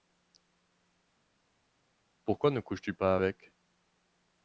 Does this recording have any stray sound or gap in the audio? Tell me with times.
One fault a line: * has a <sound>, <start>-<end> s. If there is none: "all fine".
all fine